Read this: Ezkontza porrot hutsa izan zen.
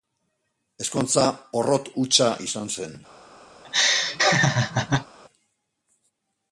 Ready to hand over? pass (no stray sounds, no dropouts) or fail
fail